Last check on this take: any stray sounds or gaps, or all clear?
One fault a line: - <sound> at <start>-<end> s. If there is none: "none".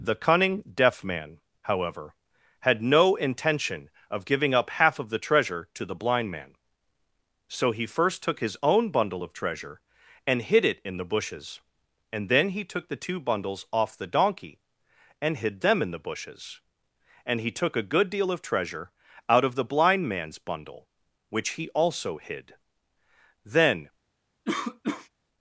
- cough at 24.5-25.1 s